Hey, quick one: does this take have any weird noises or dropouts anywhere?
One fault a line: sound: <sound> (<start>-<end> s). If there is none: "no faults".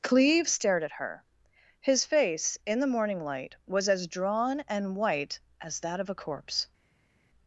no faults